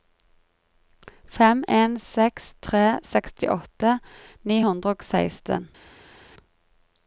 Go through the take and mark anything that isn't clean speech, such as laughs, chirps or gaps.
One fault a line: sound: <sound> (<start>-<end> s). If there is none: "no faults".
no faults